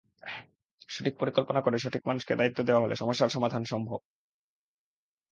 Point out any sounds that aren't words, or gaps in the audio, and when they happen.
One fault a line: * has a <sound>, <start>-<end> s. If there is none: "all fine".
all fine